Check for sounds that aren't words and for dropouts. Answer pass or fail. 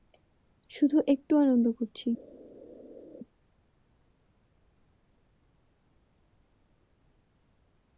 pass